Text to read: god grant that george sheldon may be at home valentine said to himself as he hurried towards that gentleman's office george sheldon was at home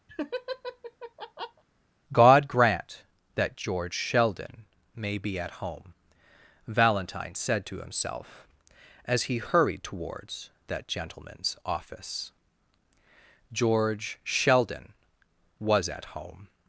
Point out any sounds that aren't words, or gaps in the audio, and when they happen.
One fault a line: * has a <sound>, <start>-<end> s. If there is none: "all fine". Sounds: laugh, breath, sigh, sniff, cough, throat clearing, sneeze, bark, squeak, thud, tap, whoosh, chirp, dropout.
* has a laugh, 0.1-1.6 s